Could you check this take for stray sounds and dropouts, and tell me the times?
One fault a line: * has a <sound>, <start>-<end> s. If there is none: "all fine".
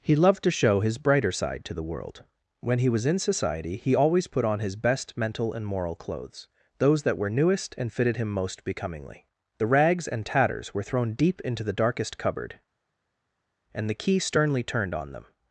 all fine